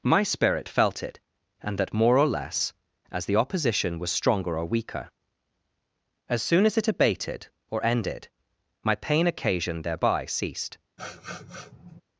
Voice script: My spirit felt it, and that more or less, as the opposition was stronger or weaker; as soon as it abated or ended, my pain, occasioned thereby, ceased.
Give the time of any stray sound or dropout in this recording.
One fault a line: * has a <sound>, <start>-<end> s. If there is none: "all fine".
* has a sniff, 11.0-12.0 s